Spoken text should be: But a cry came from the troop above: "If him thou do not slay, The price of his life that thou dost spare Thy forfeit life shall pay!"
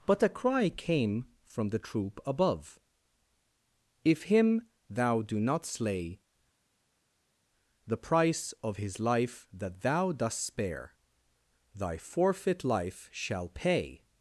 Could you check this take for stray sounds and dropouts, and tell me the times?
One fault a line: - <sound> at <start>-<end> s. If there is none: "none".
none